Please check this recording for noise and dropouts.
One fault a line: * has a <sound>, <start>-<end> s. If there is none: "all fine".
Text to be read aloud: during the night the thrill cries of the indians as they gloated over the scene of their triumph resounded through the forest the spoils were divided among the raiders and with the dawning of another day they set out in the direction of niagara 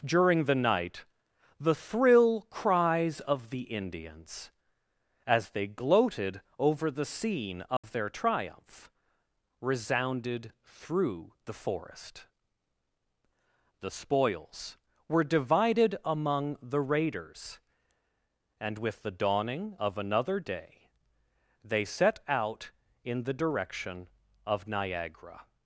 * has a dropout, 7.8-7.8 s